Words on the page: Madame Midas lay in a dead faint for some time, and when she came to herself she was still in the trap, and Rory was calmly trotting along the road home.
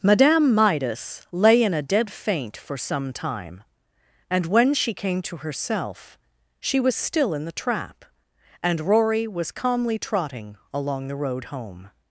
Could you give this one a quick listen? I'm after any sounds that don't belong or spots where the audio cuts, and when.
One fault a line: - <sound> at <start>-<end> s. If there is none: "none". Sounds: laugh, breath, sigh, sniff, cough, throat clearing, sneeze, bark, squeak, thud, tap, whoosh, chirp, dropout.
none